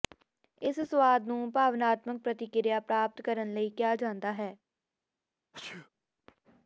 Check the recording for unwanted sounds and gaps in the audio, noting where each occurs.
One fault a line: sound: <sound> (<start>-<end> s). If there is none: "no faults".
sound: sneeze (5.5-5.9 s)